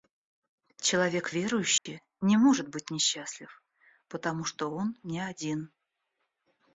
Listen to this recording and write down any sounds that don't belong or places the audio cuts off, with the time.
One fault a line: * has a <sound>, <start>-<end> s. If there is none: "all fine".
* has a dropout, 1.8-1.9 s